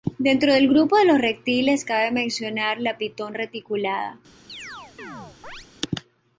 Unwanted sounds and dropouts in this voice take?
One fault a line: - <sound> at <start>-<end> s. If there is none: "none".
- chirp at 4.5-5.7 s